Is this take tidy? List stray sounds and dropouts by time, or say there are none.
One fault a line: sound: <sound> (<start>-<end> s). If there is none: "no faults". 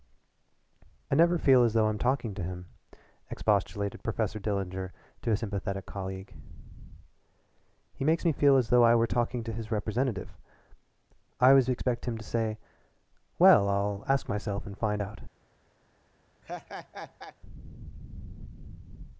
sound: laugh (16.4-17.4 s)